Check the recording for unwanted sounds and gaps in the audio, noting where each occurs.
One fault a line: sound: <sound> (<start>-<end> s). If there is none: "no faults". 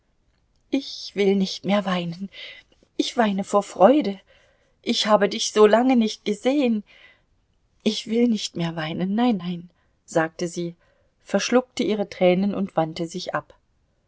no faults